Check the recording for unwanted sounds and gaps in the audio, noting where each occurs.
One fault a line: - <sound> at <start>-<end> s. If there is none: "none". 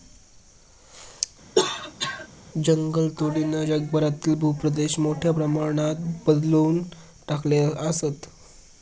- cough at 1.6-2.3 s